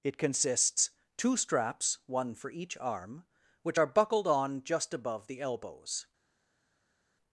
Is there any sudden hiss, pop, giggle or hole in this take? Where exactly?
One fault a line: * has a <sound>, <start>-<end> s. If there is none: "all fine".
all fine